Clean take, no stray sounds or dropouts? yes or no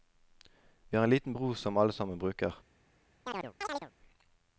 no